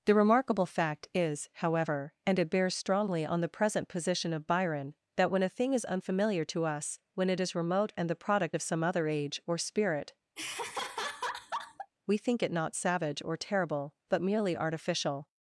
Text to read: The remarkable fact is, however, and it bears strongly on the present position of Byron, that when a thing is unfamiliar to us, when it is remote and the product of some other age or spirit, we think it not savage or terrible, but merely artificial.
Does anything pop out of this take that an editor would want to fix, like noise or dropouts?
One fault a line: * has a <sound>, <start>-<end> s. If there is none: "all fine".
* has a laugh, 10.4-11.9 s